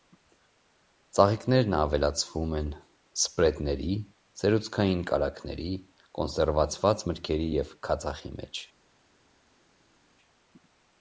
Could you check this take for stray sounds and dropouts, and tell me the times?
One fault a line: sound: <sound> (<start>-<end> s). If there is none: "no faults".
no faults